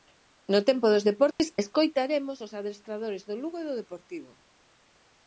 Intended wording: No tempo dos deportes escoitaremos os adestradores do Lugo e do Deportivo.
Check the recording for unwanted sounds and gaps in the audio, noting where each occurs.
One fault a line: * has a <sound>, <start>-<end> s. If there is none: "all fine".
* has a dropout, 1.3-1.4 s